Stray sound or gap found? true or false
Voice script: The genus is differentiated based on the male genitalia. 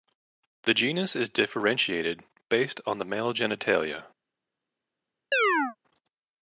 true